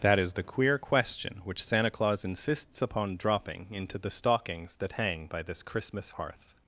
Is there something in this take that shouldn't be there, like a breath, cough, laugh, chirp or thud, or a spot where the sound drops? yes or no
no